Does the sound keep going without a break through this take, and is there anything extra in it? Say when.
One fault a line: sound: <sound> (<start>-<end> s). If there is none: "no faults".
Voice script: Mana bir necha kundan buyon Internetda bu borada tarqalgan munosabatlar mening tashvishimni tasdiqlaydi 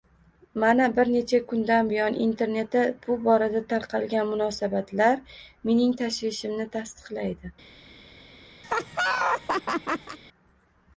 sound: laugh (8.6-10.2 s)